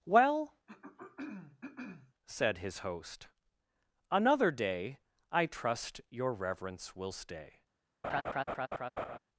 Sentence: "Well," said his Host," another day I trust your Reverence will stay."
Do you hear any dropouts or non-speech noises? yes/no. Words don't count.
yes